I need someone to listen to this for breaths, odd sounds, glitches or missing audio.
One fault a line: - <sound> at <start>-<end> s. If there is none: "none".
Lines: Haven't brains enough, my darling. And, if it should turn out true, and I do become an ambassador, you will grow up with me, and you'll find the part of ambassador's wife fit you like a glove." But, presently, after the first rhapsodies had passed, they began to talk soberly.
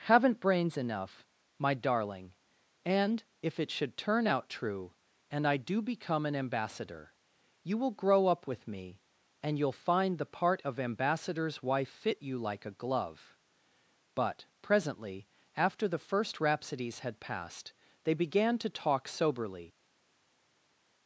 none